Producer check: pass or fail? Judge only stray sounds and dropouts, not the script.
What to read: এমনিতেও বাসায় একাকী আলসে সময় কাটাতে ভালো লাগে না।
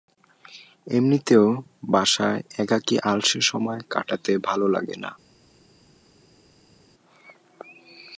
pass